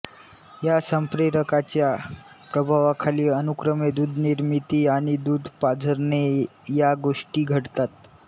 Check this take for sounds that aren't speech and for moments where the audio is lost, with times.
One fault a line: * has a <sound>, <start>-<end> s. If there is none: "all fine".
all fine